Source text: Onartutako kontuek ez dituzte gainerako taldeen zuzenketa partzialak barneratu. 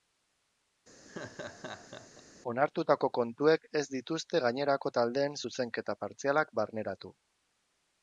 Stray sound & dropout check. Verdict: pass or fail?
fail